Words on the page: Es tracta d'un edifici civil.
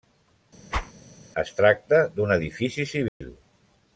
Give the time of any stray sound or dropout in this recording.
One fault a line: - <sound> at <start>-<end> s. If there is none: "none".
- whoosh at 0.7-0.9 s
- dropout at 3.1-3.2 s